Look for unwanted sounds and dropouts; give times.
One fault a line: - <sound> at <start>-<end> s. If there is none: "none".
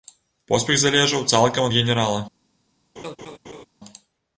- laugh at 3.0-3.7 s